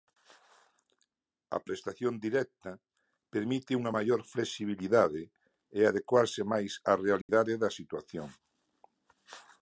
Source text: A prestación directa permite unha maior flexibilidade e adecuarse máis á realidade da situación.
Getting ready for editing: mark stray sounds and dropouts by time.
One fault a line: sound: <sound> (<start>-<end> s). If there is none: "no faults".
sound: dropout (7.2-7.3 s)